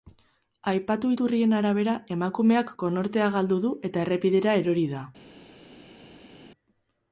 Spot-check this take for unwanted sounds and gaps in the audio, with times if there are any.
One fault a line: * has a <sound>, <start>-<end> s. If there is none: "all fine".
all fine